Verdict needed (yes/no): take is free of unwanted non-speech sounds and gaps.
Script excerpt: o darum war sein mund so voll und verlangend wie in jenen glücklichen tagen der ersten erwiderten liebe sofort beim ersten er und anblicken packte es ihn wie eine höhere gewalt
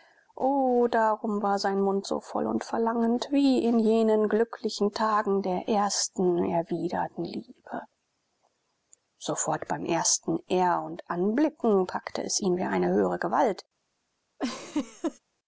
no